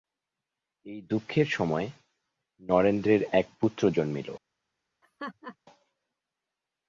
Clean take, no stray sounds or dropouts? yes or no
no